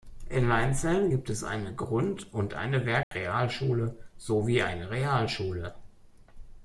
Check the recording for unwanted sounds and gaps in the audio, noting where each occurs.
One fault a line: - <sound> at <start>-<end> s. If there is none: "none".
- dropout at 3.0-3.1 s